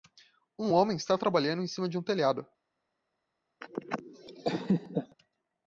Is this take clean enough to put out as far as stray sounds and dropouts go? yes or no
no